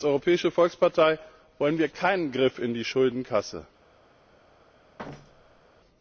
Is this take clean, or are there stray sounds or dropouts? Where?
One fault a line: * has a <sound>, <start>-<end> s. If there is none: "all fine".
* has a thud, 5.0-5.6 s